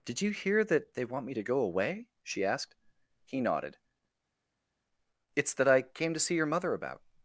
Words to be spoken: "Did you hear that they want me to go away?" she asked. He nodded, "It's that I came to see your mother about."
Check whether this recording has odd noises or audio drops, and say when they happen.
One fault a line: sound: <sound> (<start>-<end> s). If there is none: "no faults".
no faults